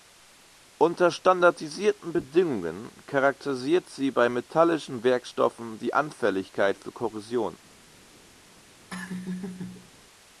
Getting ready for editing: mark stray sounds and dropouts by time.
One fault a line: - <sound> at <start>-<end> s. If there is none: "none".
- laugh at 8.9-9.9 s